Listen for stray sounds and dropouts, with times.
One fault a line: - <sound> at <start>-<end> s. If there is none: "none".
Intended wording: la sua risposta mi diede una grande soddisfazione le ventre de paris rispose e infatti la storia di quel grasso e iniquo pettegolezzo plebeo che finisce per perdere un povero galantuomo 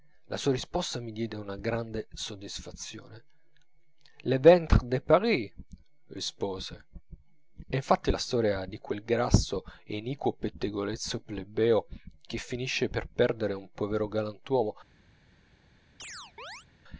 - chirp at 16.0-16.7 s